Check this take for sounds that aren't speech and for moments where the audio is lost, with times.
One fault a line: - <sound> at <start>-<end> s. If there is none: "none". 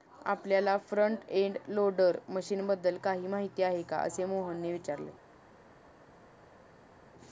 none